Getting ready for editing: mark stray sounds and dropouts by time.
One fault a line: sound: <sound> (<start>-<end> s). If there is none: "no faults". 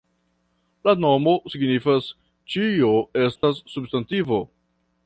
sound: dropout (3.4-3.4 s)